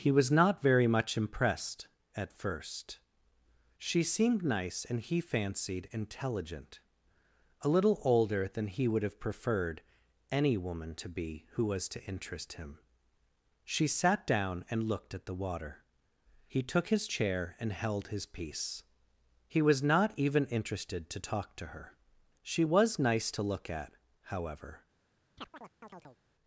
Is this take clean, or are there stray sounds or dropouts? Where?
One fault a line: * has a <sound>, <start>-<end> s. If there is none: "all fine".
* has a chirp, 25.4-26.2 s